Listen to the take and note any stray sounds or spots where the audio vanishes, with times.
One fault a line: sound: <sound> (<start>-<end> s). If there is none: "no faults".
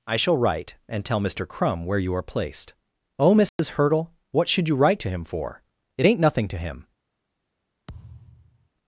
sound: dropout (3.5-3.6 s)
sound: thud (7.9-8.7 s)